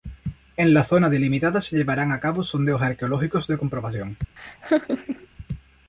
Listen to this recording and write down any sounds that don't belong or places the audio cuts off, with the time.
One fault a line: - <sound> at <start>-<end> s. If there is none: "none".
- laugh at 4.4-5.3 s